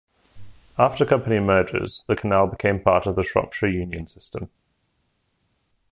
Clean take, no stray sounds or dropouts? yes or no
yes